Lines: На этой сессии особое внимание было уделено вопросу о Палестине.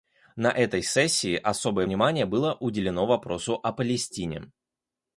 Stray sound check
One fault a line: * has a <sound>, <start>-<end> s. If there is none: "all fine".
all fine